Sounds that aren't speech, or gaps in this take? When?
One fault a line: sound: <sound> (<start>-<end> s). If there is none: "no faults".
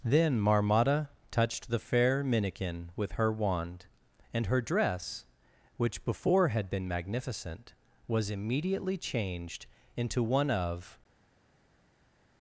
no faults